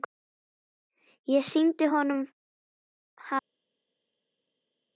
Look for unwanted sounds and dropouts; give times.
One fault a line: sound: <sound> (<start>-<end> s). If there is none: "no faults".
no faults